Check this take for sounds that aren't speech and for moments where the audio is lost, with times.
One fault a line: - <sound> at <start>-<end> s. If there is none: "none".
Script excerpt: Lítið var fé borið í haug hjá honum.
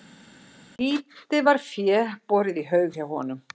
none